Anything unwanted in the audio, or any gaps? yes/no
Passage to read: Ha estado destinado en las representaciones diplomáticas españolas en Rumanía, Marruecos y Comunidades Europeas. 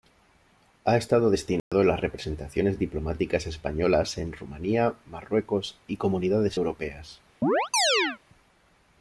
yes